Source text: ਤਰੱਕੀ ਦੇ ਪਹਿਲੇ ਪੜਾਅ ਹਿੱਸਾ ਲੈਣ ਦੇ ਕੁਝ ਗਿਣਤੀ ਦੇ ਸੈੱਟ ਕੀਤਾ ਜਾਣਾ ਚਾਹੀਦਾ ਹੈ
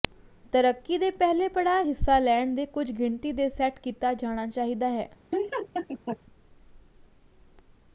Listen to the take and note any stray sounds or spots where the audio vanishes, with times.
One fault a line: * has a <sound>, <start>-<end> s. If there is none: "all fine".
* has a laugh, 5.3-6.2 s